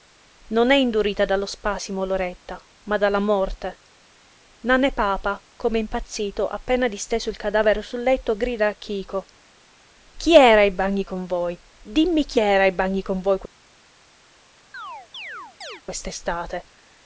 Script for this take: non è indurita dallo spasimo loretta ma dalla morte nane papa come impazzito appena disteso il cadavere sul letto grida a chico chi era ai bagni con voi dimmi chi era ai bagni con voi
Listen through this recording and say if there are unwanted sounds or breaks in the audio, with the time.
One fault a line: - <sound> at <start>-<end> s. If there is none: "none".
- chirp at 14.7-15.8 s